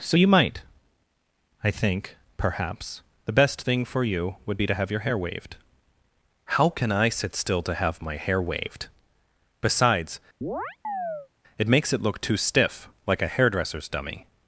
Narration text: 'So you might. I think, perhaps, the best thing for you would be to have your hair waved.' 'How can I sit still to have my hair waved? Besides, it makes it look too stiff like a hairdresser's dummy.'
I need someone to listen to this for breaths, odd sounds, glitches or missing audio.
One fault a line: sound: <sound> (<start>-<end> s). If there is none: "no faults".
sound: chirp (10.4-11.3 s)